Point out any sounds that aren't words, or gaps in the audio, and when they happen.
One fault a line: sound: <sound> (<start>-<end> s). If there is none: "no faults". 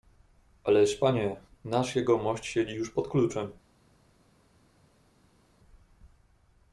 no faults